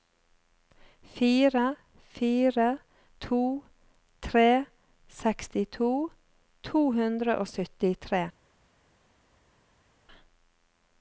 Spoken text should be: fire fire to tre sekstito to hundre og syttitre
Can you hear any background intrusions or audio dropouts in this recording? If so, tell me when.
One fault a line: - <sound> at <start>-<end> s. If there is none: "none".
none